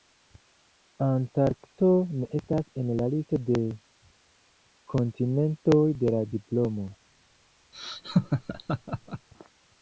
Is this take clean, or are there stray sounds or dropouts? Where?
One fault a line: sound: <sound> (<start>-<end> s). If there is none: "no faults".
sound: laugh (7.7-9.3 s)